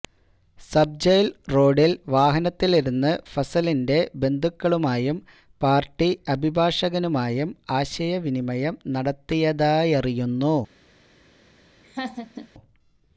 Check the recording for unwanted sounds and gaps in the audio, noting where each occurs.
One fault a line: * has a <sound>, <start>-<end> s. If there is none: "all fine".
* has a laugh, 11.8-12.5 s